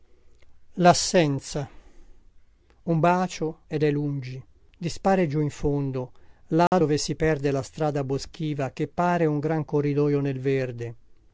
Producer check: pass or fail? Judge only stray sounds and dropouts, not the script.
fail